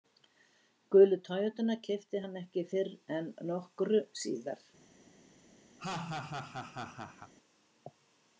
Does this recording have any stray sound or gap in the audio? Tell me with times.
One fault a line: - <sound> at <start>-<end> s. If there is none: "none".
- laugh at 5.8-7.3 s